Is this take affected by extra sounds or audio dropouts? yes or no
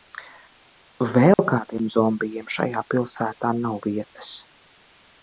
yes